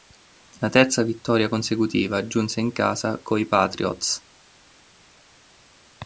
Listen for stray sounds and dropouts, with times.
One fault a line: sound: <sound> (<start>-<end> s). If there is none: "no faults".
no faults